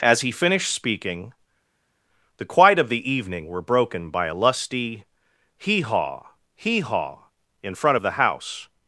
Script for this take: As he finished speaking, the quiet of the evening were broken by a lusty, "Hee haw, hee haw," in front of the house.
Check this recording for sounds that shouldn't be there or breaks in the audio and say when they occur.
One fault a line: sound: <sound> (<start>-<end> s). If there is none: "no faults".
no faults